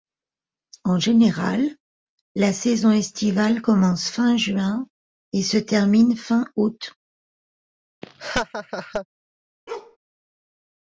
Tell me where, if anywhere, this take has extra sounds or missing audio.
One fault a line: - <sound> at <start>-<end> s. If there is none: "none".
- laugh at 8.0-9.1 s
- bark at 9.7-10.0 s